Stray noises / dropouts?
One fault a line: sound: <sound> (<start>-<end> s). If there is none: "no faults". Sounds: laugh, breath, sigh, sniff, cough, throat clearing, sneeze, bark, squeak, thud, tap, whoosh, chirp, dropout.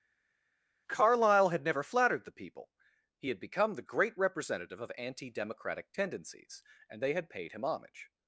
no faults